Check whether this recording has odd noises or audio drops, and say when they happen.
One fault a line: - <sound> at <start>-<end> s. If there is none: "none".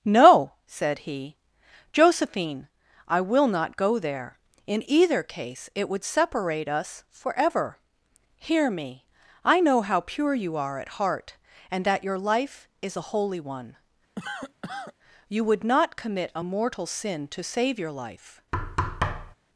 - cough at 14.2-14.9 s
- thud at 18.5-19.4 s